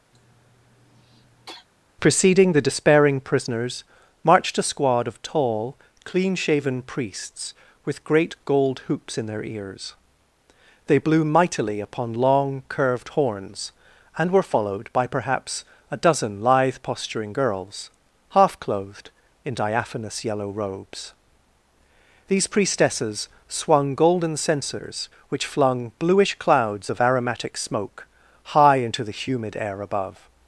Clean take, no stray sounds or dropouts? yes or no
no